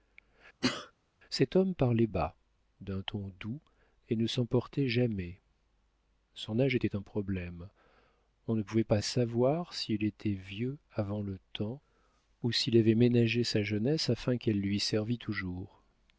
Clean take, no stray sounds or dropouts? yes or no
no